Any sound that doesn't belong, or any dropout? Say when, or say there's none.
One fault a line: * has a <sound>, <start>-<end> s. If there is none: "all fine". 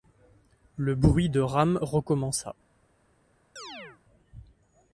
* has a chirp, 3.6-4.0 s